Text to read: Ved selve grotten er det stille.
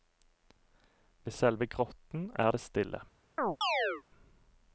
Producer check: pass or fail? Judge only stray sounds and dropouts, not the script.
fail